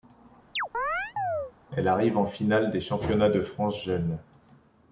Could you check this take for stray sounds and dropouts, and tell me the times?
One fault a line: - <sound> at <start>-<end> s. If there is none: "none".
- chirp at 0.6-1.5 s